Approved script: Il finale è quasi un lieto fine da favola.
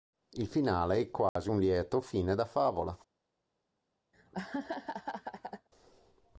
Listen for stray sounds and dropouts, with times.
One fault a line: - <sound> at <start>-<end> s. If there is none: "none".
- dropout at 1.3-1.4 s
- laugh at 4.1-5.7 s